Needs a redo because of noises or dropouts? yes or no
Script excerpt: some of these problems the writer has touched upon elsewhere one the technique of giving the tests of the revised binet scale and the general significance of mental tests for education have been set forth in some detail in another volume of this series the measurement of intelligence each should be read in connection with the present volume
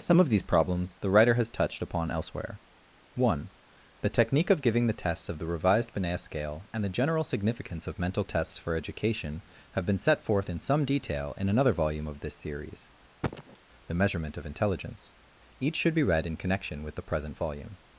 yes